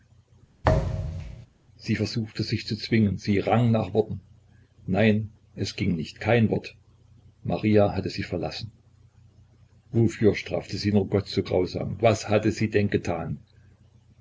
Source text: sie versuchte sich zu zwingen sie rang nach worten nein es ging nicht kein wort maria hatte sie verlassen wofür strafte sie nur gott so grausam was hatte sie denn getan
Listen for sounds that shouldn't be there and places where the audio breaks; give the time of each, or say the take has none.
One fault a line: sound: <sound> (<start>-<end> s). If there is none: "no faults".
sound: thud (0.6-1.5 s)